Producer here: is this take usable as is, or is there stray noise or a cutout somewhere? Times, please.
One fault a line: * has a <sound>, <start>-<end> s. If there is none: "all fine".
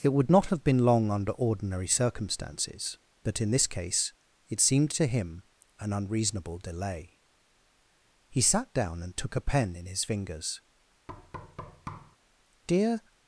* has a thud, 11.1-12.2 s